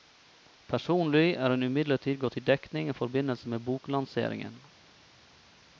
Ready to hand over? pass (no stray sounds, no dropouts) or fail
pass